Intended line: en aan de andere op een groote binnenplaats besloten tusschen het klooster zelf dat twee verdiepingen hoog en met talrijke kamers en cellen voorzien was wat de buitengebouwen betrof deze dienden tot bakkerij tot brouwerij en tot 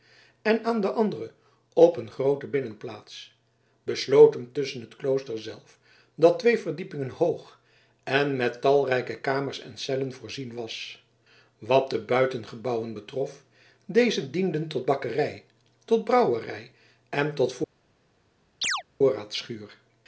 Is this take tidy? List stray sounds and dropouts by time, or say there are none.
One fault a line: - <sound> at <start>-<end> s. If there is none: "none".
- chirp at 18.6-18.8 s